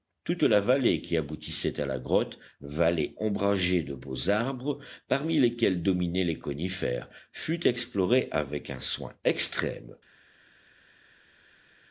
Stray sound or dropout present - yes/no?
no